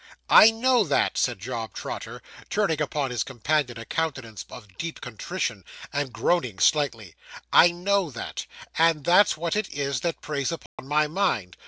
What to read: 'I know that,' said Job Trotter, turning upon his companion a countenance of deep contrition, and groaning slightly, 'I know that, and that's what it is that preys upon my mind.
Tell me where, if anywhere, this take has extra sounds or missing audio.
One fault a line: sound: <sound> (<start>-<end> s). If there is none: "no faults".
sound: dropout (10.7-10.8 s)